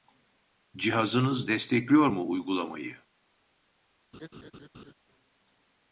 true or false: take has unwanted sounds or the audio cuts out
true